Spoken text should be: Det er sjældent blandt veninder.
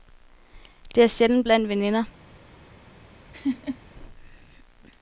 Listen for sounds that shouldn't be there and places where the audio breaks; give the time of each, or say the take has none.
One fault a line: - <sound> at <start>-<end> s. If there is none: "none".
- laugh at 3.3-3.8 s